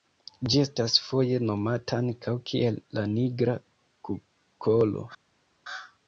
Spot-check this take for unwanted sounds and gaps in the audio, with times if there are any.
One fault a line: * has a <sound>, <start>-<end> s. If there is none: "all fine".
all fine